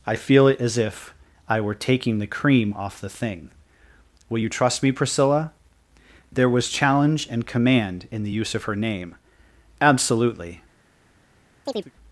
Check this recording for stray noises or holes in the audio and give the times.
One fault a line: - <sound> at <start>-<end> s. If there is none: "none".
- chirp at 11.7-11.9 s